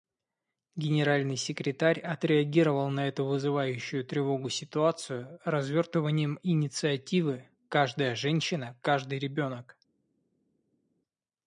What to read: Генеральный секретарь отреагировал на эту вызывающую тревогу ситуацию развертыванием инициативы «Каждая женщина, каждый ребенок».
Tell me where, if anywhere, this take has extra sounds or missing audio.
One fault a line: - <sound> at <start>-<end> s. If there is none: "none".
none